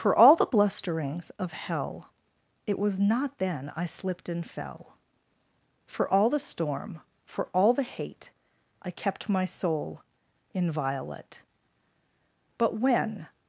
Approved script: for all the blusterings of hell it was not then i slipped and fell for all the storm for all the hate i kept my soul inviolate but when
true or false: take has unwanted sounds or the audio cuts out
false